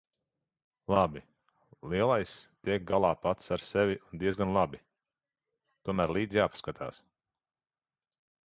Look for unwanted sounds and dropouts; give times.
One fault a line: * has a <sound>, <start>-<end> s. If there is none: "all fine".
all fine